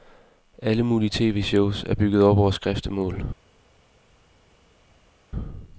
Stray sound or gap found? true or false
false